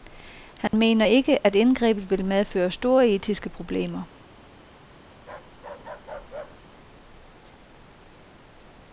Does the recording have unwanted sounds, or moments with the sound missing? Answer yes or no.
yes